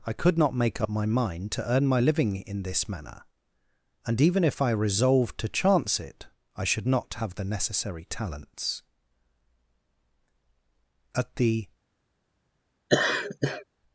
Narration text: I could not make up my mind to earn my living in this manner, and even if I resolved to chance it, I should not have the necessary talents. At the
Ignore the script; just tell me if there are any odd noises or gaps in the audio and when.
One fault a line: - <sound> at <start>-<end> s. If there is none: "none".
- laugh at 12.9-13.6 s